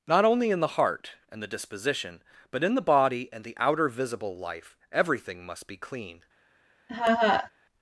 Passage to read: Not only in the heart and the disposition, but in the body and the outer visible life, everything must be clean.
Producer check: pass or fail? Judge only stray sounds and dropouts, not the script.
fail